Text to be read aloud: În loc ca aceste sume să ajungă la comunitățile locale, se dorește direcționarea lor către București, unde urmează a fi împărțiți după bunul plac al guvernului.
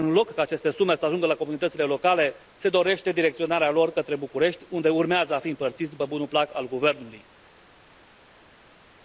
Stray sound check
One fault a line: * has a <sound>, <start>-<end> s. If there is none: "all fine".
all fine